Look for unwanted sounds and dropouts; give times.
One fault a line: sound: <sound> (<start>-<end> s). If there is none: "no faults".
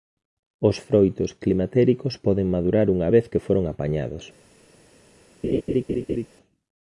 sound: laugh (5.4-6.3 s)